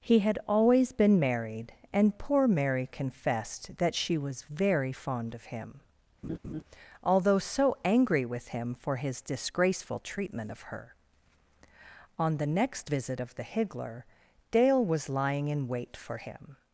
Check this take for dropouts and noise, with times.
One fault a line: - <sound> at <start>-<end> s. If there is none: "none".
- laugh at 6.2-6.6 s